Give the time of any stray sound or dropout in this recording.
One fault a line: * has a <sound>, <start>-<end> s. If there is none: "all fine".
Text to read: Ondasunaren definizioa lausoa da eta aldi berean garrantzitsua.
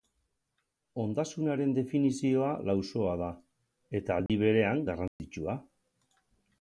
* has a dropout, 4.3-4.3 s
* has a dropout, 5.1-5.2 s